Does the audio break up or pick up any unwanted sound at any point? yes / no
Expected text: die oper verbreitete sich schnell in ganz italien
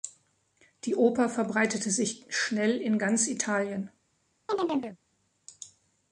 yes